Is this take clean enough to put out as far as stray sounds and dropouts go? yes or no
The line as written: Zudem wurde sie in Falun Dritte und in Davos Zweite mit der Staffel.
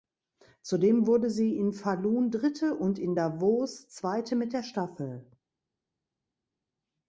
yes